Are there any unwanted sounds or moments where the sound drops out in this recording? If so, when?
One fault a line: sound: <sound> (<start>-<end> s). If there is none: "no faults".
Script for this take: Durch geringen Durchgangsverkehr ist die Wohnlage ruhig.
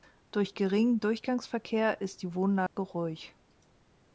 sound: dropout (2.7-2.8 s)